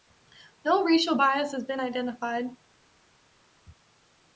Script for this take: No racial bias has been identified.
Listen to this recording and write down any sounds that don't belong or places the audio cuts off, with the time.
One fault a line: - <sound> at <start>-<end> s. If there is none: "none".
none